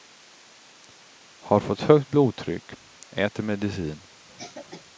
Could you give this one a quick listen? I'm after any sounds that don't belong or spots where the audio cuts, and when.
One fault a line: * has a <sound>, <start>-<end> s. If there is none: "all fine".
* has a cough, 4.3-4.8 s